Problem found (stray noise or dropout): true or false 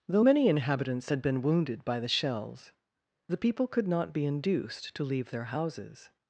false